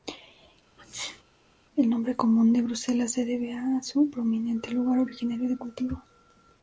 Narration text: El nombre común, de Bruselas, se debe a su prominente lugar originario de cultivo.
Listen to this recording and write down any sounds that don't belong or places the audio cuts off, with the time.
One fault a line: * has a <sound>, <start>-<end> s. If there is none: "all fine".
* has a sneeze, 0.8-1.2 s